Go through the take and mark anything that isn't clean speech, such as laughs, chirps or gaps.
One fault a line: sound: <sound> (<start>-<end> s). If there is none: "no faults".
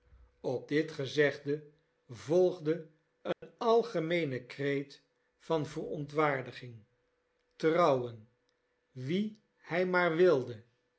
sound: dropout (3.3-3.4 s)